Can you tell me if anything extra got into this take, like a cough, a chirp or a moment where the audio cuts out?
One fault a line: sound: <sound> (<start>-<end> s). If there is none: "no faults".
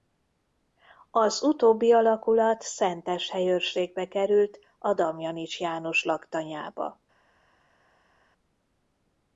no faults